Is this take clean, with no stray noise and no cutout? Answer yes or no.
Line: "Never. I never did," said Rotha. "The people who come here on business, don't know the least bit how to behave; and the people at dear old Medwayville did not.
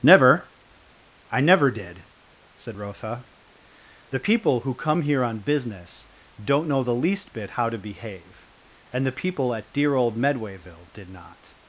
yes